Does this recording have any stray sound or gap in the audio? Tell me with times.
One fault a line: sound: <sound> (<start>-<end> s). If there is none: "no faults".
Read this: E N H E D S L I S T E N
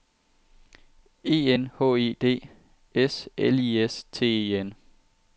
no faults